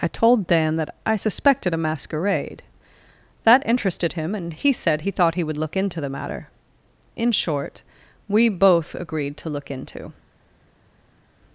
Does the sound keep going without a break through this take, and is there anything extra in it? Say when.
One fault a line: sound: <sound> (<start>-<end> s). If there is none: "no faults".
no faults